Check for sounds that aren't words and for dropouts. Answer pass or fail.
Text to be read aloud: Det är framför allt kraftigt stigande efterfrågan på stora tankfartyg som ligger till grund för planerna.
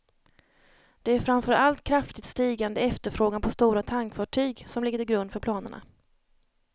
pass